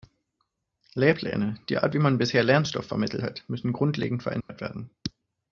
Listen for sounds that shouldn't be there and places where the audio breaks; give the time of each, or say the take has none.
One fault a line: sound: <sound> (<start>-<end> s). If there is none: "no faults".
sound: dropout (4.4-4.5 s)